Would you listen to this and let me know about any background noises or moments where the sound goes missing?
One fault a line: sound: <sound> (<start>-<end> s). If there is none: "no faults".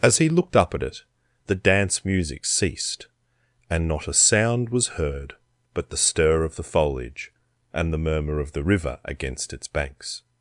no faults